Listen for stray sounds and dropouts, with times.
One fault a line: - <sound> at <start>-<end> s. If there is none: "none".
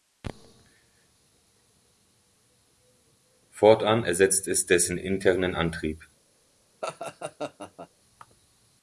- laugh at 6.8-7.9 s